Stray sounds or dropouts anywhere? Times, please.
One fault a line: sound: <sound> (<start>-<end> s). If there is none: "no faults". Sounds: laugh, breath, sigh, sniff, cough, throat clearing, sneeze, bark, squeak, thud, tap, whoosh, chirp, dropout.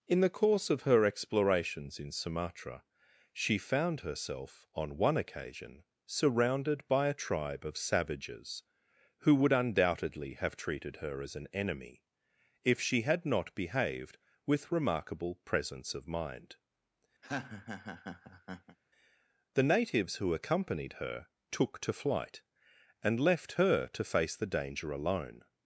sound: laugh (17.2-18.8 s)